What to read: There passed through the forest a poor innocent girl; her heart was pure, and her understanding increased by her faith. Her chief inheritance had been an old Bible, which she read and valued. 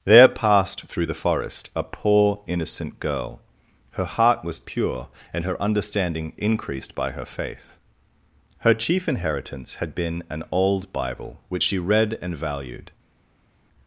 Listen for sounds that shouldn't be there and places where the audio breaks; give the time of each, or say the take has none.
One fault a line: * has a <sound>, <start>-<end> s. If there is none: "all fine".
all fine